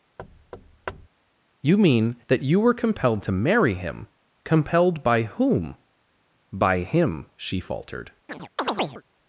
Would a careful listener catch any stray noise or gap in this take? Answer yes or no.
yes